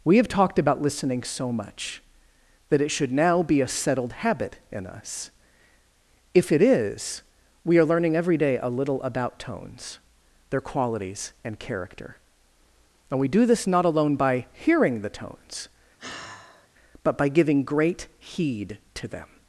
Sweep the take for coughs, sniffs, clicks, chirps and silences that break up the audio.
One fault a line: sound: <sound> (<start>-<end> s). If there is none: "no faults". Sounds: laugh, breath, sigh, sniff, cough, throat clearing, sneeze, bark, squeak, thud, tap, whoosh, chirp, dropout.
sound: sigh (16.0-16.7 s)